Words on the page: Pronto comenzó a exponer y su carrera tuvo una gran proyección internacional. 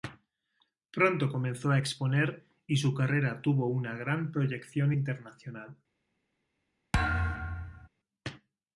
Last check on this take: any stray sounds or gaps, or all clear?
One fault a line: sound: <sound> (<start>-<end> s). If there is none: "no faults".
sound: thud (6.9-7.9 s)